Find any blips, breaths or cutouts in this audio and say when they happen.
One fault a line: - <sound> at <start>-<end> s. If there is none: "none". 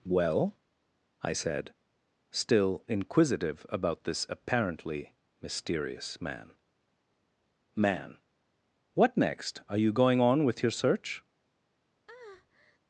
- breath at 12.1-12.8 s